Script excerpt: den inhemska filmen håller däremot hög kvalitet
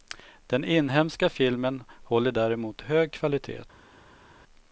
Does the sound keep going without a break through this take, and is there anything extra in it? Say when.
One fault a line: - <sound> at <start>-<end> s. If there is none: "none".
none